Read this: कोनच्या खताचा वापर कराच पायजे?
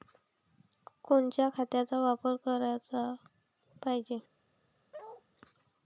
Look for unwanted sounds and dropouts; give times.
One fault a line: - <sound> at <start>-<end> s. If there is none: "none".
- bark at 4.9-5.2 s